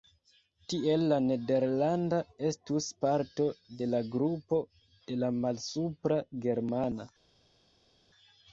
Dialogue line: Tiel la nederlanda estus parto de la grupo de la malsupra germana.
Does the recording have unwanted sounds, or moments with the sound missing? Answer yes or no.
no